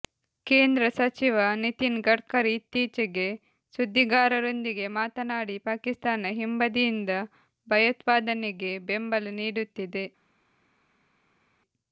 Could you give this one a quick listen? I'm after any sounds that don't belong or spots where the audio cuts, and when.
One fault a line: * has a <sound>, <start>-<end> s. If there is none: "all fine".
all fine